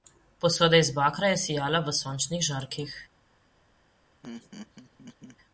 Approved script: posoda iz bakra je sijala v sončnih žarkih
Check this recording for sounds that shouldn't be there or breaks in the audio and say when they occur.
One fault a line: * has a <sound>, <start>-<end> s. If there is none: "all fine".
* has a laugh, 4.2-5.4 s